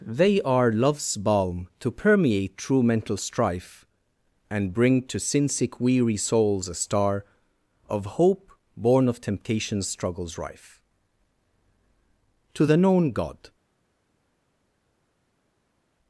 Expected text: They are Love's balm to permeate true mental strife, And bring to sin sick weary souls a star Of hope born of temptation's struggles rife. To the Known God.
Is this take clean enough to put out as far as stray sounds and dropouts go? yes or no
yes